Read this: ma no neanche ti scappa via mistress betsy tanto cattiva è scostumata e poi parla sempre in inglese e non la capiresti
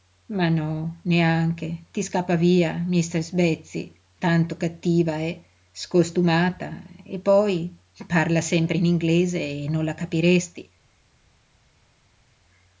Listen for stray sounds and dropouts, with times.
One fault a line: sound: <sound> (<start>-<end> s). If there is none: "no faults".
no faults